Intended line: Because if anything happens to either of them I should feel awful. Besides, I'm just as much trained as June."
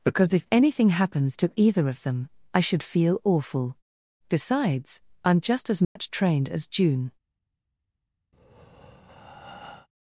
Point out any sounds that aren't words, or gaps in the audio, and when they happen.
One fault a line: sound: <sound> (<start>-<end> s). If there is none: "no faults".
sound: dropout (5.8-6.0 s)
sound: breath (8.3-9.9 s)